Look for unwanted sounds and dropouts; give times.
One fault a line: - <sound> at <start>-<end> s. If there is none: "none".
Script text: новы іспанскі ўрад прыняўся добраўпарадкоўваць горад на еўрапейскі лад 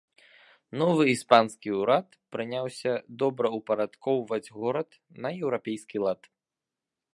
none